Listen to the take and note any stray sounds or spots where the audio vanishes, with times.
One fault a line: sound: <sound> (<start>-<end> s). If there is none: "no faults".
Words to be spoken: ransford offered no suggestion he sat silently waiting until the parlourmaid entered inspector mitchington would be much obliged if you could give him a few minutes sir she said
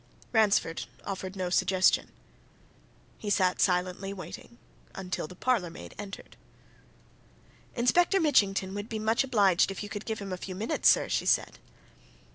no faults